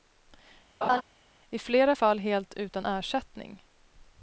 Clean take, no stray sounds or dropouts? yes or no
no